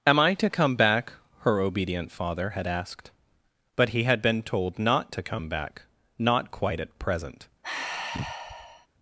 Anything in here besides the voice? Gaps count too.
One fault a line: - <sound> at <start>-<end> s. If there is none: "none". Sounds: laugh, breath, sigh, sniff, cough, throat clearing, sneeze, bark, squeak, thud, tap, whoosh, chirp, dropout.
- sigh at 7.6-8.9 s